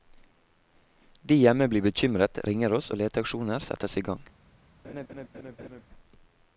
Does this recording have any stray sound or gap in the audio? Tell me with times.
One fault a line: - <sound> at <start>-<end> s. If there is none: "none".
- laugh at 4.8-5.8 s